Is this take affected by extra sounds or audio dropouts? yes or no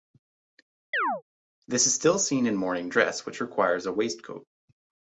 yes